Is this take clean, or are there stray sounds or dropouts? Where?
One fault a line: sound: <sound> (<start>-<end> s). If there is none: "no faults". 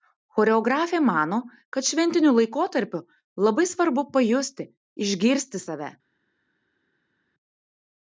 no faults